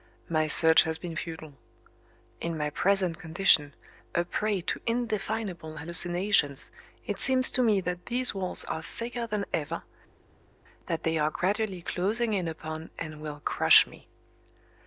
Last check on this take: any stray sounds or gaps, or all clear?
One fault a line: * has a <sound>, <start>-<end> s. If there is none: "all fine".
all fine